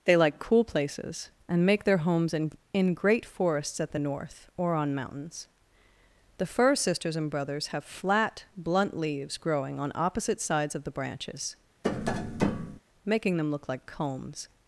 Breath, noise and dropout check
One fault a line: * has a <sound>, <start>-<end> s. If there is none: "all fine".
* has a tap, 11.8-12.8 s